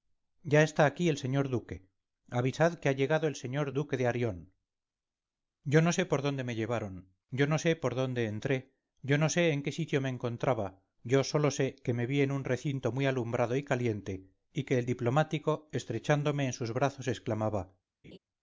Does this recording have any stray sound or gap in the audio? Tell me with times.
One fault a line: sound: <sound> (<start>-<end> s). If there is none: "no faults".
sound: laugh (18.0-18.2 s)